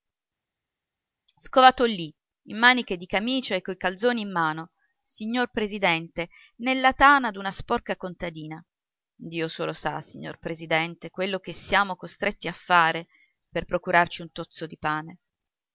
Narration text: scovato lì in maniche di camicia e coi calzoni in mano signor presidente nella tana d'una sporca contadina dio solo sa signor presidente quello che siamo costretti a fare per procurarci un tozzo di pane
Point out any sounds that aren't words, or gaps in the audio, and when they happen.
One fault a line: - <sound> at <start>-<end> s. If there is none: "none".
none